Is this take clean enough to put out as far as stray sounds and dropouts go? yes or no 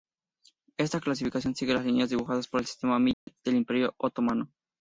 no